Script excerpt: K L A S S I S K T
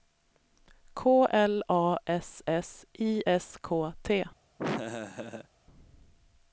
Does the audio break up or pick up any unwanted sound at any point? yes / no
yes